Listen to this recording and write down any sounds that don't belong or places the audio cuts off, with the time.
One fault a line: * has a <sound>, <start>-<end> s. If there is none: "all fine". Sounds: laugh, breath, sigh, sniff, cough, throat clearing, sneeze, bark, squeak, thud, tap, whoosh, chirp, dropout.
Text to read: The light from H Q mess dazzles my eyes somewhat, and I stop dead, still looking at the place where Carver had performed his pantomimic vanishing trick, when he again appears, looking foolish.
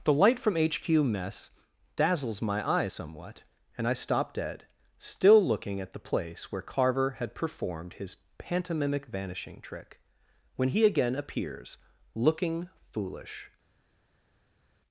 all fine